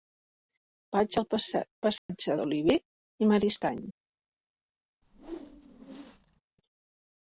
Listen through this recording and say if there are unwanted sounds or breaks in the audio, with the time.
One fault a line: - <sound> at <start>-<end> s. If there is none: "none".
- dropout at 2.0-2.1 s
- whoosh at 5.0-6.4 s